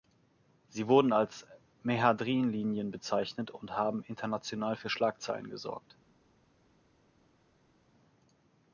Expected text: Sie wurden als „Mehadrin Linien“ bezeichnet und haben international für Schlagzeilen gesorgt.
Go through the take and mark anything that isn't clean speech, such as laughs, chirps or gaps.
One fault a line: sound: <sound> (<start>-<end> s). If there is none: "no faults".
no faults